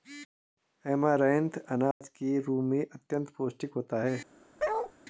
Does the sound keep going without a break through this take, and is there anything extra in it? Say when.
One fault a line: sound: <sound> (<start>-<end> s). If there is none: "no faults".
sound: dropout (1.9-2.0 s)
sound: bark (4.6-4.9 s)